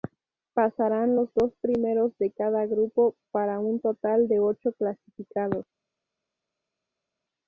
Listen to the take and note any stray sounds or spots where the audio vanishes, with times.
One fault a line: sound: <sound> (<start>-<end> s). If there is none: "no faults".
no faults